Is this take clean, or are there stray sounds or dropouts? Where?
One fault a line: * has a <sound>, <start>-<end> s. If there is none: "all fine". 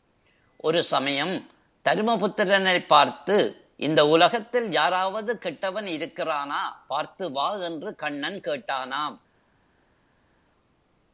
all fine